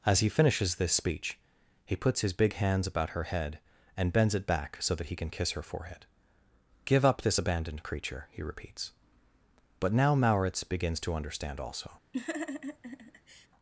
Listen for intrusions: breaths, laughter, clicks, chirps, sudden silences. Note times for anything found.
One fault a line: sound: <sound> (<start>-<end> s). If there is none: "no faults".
sound: laugh (12.1-13.5 s)